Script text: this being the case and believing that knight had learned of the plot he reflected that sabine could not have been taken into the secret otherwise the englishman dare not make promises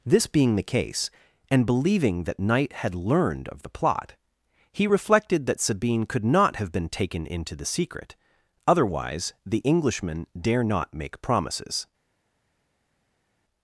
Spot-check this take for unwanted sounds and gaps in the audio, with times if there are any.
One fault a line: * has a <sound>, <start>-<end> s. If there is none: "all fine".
all fine